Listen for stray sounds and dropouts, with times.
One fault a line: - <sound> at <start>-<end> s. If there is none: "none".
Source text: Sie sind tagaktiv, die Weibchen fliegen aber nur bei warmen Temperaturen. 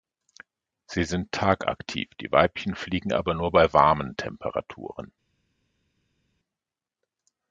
none